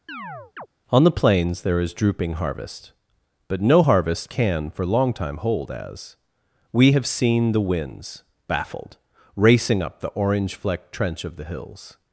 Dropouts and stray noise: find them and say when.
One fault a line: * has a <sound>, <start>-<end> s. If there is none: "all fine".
* has a chirp, 0.1-0.7 s